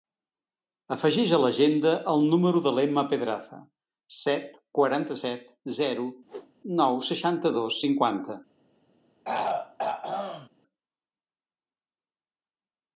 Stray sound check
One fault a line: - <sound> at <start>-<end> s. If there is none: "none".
- whoosh at 6.2-6.5 s
- throat clearing at 9.2-10.5 s